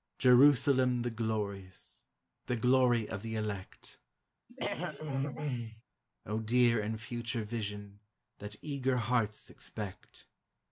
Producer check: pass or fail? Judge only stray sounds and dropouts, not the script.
fail